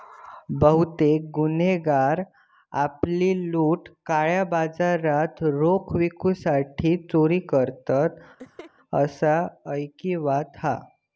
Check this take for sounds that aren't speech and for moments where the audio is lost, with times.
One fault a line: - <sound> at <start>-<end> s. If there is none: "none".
- laugh at 8.4-8.7 s